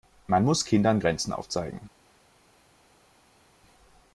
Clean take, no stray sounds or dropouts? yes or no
yes